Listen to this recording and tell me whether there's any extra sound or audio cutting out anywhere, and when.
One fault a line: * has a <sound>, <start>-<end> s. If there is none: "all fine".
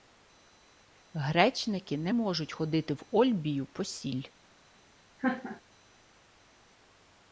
* has a laugh, 5.2-5.6 s